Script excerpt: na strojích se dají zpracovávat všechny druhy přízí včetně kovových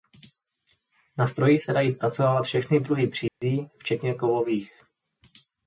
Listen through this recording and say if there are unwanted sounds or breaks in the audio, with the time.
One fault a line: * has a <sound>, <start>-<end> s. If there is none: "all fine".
* has a dropout, 3.3-3.4 s